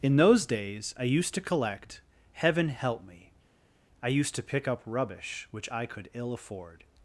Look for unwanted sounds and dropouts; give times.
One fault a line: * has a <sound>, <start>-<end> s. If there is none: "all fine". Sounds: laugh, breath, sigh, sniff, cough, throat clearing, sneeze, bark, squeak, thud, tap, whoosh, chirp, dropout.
all fine